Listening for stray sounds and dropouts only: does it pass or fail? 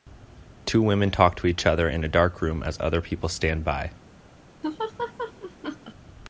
fail